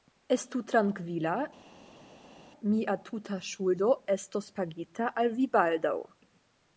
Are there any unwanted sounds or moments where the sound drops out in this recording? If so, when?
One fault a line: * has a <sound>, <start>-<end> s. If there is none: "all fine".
all fine